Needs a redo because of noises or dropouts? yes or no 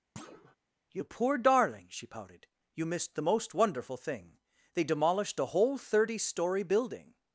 yes